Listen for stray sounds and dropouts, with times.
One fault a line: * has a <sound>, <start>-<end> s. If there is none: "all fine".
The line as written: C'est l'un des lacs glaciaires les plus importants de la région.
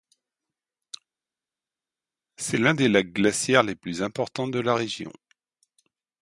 all fine